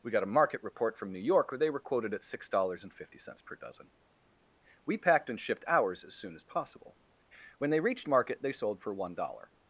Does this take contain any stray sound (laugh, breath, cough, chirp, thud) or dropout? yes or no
no